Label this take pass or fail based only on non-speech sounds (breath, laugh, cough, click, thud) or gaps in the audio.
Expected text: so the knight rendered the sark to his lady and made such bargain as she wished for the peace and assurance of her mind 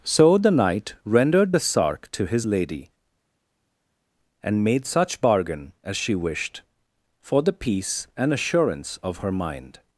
pass